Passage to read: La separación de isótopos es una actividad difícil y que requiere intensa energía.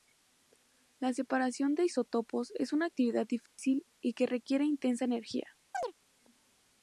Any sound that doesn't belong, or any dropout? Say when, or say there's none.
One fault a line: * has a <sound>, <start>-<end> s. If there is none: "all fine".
* has a dropout, 3.5-3.6 s
* has a chirp, 5.7-5.9 s